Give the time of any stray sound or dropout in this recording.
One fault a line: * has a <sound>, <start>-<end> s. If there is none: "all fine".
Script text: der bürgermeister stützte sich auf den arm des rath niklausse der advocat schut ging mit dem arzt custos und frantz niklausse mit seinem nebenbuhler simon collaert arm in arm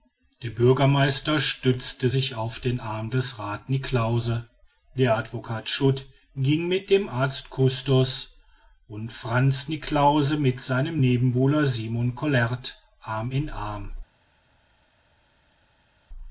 all fine